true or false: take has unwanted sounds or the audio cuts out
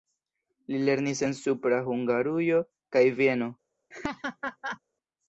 true